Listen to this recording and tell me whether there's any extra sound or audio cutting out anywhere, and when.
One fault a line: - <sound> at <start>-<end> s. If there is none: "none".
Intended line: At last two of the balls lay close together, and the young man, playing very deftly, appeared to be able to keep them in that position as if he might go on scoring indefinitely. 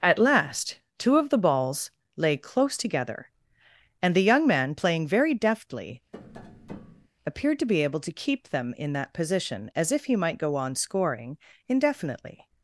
- tap at 6.1-7.1 s